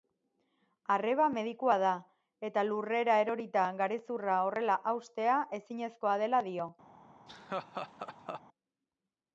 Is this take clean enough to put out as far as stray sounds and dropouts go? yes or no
no